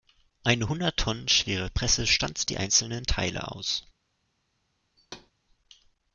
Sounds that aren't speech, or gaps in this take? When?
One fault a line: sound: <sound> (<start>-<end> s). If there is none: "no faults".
sound: thud (5.0-5.3 s)